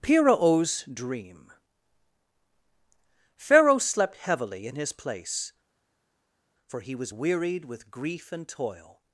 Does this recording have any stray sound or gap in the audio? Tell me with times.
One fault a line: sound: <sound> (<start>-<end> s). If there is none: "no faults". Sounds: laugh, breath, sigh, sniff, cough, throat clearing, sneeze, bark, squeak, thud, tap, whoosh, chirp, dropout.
no faults